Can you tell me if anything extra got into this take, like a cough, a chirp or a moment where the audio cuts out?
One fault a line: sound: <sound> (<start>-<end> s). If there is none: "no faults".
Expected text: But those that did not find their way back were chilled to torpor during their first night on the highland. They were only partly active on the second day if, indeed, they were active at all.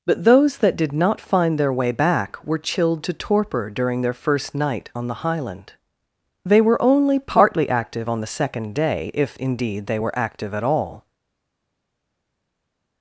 no faults